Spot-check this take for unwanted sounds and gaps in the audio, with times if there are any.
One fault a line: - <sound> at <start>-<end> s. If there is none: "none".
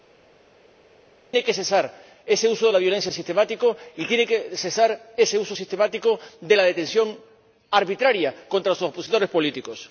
none